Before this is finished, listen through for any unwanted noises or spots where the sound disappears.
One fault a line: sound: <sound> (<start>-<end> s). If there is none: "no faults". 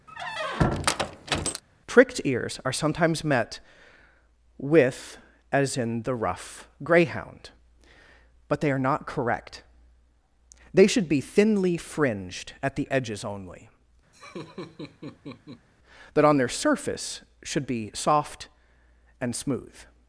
sound: squeak (0.1-1.6 s)
sound: laugh (14.1-15.7 s)